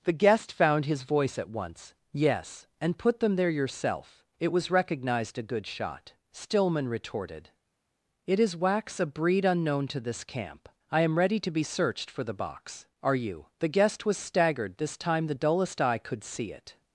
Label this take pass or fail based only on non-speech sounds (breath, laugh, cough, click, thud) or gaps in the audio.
pass